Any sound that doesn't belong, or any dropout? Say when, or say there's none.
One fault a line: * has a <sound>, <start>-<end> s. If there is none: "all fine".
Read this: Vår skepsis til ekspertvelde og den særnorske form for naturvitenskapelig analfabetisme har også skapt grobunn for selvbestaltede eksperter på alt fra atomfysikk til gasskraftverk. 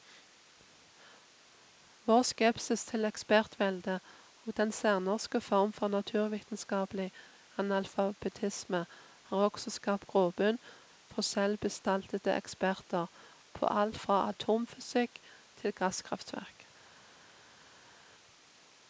all fine